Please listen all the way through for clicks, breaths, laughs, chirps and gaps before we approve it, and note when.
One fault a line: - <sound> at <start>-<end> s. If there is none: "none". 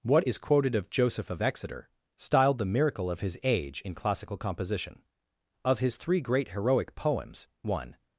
none